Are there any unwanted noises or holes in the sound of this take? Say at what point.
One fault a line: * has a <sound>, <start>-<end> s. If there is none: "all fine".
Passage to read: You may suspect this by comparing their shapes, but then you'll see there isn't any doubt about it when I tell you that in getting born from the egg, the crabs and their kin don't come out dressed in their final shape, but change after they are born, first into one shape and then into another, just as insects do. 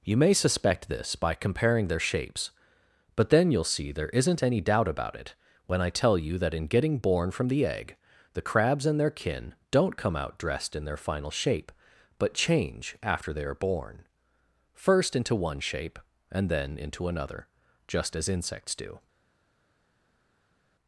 all fine